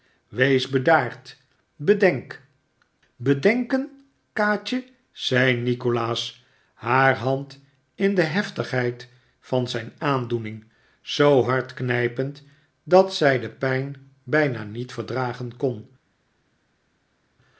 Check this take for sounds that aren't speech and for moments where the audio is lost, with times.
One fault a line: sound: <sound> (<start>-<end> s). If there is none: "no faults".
no faults